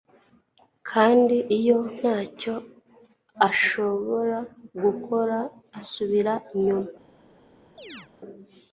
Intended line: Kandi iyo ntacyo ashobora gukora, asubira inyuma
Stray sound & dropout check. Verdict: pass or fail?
fail